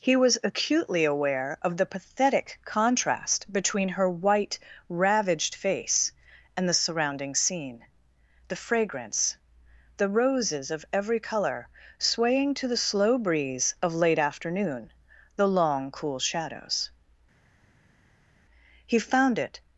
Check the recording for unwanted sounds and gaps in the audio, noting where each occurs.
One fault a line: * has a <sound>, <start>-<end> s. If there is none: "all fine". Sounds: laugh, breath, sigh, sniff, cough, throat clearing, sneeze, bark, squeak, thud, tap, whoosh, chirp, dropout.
all fine